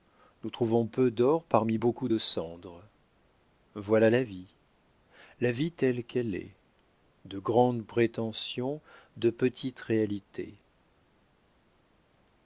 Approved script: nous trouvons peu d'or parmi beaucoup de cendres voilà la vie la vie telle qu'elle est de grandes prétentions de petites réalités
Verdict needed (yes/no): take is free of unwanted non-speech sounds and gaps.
yes